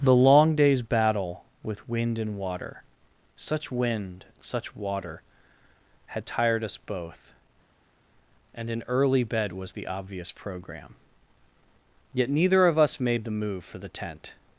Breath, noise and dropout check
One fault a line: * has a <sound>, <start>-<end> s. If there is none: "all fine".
all fine